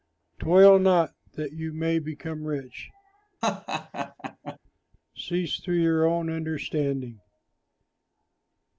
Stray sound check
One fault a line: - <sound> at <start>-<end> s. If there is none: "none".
- laugh at 3.4-4.6 s